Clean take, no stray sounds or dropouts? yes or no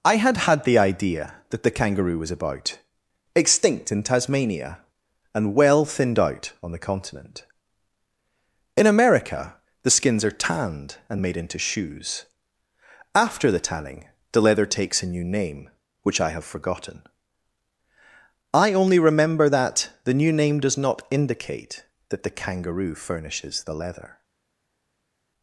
yes